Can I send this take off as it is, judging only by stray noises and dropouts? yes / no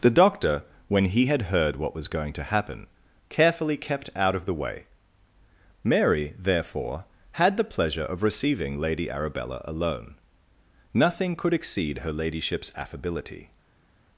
yes